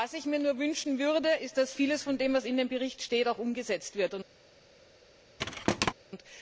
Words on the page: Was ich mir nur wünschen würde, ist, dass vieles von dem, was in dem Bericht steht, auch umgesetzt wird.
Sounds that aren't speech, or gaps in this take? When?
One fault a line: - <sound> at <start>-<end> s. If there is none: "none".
- thud at 5.4-5.9 s